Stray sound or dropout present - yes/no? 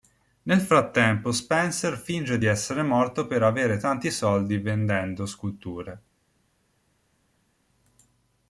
no